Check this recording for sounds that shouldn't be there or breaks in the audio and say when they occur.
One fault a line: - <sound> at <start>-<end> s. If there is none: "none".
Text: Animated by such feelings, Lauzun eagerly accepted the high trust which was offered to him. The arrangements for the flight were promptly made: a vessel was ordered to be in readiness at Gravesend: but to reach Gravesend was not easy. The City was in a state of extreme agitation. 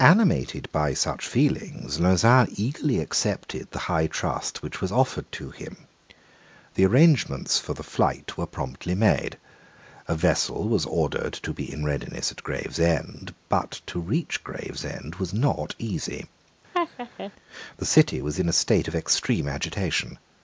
- laugh at 16.7-17.3 s